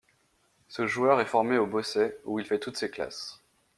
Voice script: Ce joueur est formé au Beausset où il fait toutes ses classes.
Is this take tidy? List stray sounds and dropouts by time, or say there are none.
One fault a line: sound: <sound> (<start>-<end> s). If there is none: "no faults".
no faults